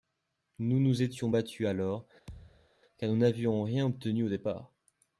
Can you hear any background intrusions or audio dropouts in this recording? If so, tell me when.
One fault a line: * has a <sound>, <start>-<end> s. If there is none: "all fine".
* has a thud, 2.3-2.7 s